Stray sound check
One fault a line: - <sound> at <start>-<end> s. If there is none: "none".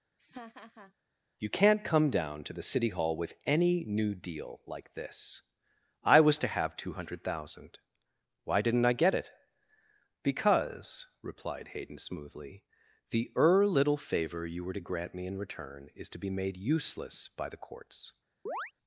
- laugh at 0.2-0.9 s
- chirp at 18.5-18.7 s